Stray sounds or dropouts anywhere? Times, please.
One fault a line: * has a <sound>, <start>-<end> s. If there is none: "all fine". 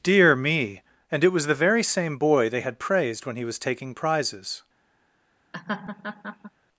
* has a laugh, 5.5-6.5 s